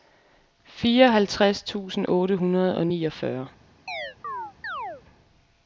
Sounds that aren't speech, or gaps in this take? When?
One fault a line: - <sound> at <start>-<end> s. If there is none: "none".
- chirp at 3.9-5.0 s